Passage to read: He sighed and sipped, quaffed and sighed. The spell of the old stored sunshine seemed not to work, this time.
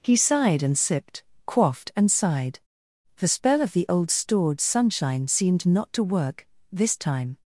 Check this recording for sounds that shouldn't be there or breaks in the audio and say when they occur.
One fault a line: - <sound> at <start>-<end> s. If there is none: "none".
none